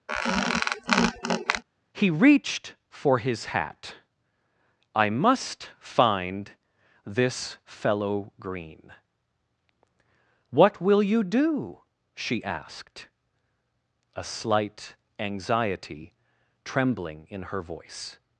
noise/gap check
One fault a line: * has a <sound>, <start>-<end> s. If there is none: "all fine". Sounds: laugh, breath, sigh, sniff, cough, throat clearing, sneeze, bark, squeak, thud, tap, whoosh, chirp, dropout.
* has a squeak, 0.1-1.6 s